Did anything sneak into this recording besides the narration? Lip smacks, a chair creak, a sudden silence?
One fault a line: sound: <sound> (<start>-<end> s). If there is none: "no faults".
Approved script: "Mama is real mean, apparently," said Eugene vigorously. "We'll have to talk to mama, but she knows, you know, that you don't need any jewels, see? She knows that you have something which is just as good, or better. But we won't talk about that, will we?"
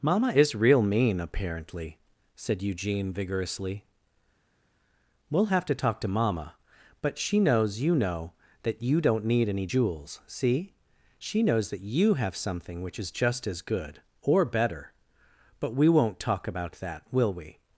no faults